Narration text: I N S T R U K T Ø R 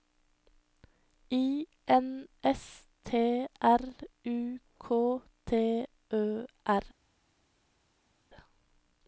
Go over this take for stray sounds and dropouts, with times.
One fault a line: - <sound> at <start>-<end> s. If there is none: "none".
none